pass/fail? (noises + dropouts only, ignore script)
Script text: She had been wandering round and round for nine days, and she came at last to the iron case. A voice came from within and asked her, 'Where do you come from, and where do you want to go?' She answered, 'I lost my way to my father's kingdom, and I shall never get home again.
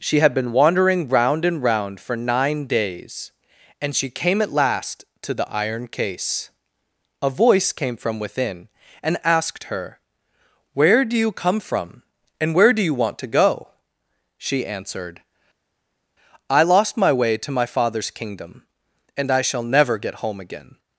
pass